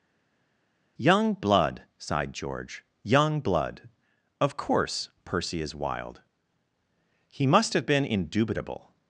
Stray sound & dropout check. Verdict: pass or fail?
pass